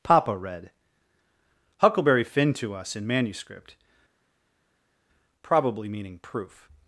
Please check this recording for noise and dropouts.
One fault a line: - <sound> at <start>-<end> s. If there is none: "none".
none